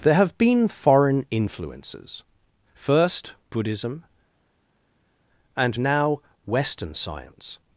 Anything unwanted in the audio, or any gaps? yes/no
no